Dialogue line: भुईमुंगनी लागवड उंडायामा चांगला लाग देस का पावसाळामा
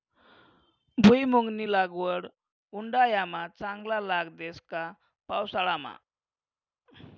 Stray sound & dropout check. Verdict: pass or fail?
pass